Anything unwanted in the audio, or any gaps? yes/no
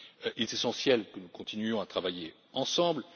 no